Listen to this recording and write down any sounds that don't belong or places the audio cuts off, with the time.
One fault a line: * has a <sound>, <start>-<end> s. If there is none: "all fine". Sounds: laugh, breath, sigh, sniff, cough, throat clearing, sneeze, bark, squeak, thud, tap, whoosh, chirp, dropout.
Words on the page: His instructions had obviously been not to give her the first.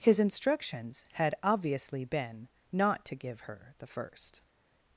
all fine